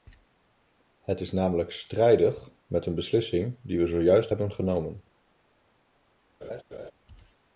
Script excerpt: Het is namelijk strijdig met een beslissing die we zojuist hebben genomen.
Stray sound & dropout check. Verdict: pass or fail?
fail